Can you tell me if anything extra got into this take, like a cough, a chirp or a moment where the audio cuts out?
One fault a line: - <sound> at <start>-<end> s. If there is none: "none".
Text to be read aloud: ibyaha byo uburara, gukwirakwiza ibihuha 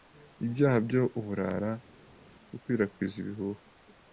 none